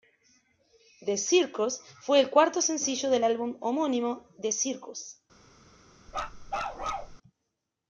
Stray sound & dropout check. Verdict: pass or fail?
fail